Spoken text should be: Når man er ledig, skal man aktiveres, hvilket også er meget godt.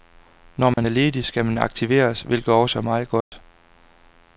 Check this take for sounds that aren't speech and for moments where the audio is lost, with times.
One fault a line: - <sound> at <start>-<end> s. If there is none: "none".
- dropout at 0.7-0.8 s
- dropout at 3.2-3.3 s